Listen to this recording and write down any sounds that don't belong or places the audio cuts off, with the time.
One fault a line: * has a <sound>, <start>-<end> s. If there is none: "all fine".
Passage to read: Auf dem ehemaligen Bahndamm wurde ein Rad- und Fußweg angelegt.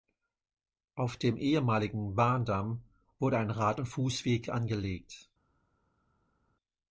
all fine